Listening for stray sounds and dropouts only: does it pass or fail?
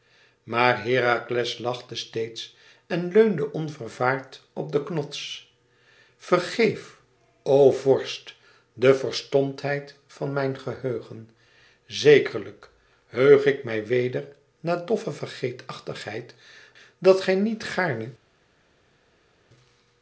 pass